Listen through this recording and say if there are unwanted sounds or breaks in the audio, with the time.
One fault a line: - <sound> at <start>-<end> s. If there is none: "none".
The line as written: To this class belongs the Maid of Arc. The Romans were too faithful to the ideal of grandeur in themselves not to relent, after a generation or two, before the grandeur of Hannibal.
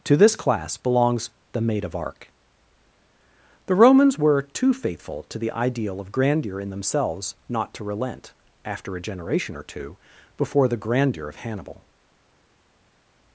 none